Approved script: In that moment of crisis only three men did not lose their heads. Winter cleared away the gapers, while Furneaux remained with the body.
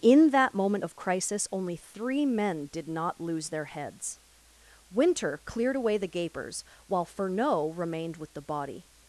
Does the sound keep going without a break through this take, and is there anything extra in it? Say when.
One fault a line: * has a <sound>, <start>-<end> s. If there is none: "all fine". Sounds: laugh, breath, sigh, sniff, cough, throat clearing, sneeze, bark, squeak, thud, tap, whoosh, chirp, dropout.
all fine